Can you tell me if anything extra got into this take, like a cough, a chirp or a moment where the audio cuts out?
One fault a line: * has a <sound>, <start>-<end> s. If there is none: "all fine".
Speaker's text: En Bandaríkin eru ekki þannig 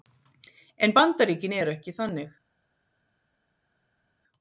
all fine